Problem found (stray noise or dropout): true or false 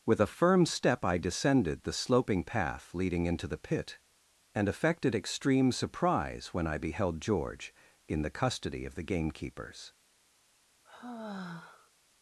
true